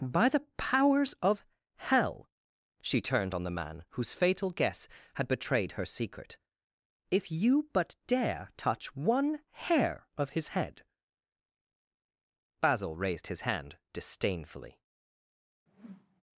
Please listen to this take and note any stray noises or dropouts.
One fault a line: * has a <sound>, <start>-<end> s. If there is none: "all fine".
* has a whoosh, 15.7-16.2 s